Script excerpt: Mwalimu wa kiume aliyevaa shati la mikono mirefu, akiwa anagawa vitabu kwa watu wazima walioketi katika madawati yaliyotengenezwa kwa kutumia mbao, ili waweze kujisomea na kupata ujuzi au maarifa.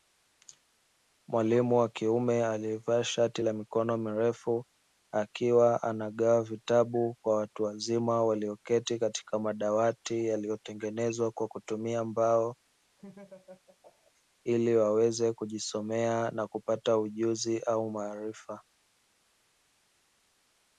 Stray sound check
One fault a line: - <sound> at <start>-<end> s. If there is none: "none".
- laugh at 13.0-14.1 s